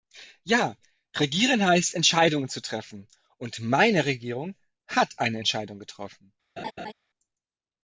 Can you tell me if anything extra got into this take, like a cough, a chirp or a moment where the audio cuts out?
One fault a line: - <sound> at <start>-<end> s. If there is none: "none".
- laugh at 6.6-6.9 s